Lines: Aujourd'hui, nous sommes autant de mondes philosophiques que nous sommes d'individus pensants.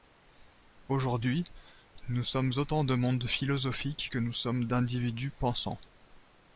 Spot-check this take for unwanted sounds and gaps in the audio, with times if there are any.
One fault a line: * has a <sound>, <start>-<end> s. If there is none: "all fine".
all fine